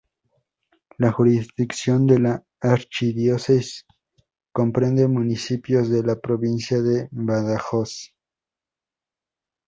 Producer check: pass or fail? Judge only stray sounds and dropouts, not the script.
pass